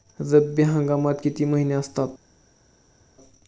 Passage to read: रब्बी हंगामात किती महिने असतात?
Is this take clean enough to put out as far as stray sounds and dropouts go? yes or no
yes